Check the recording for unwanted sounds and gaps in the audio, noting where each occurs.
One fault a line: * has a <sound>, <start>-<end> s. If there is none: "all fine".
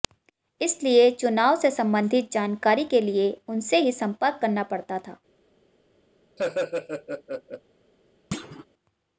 * has a laugh, 6.4-7.6 s
* has a thud, 8.3-8.6 s